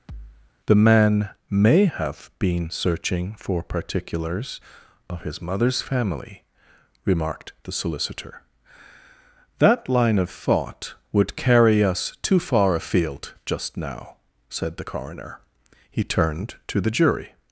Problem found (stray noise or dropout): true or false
true